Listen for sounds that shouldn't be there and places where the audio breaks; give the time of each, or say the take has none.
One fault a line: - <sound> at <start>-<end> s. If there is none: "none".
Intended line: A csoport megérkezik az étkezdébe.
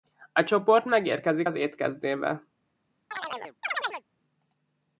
- chirp at 3.1-4.0 s